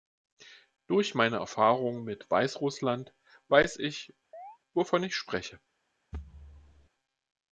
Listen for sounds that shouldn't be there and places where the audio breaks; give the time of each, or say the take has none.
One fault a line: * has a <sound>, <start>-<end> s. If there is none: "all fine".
* has a chirp, 4.3-4.6 s
* has a thud, 6.1-6.9 s